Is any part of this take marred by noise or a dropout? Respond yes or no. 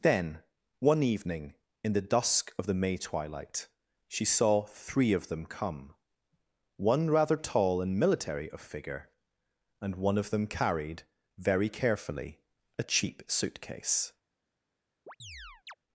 yes